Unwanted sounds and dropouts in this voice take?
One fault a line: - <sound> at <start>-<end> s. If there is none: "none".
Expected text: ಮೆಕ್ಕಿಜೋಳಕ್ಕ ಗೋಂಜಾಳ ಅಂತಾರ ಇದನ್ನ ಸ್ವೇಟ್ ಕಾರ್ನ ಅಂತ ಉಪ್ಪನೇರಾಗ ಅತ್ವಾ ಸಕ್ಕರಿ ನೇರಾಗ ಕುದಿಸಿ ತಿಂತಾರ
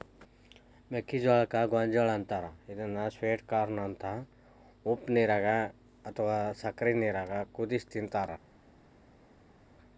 none